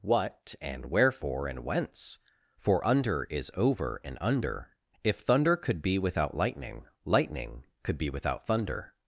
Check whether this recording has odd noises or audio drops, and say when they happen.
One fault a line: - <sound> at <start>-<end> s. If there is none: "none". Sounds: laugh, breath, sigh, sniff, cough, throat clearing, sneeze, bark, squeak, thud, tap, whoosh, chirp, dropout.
none